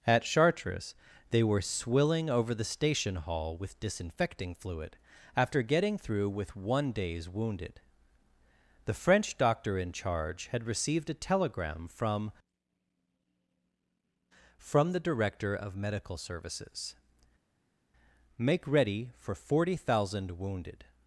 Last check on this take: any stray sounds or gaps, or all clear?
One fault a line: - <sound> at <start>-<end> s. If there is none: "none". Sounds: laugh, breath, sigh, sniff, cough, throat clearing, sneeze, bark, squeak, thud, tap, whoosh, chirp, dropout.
none